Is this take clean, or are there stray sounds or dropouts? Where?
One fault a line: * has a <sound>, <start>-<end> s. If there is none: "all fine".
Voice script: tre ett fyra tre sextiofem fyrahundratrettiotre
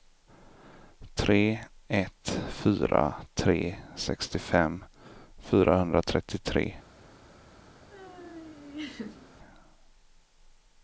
* has a laugh, 7.9-9.4 s